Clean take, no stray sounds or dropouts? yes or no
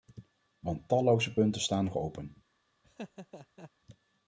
no